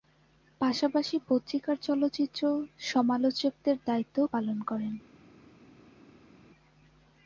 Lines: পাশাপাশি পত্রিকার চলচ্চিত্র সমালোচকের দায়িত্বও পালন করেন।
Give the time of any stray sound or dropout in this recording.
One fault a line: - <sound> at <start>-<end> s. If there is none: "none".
none